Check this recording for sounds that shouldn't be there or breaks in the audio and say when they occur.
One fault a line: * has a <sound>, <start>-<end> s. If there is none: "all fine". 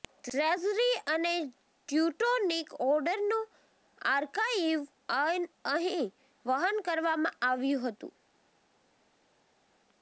all fine